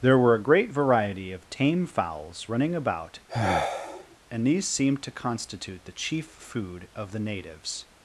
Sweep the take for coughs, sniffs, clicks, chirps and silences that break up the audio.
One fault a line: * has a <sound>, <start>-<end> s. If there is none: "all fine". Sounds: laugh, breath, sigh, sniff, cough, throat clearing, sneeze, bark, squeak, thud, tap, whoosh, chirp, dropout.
* has a sigh, 3.3-4.2 s